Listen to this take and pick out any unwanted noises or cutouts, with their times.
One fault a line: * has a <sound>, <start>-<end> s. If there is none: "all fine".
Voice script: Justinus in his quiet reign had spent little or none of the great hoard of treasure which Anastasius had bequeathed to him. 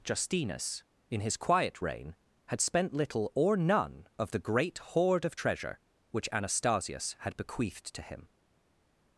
all fine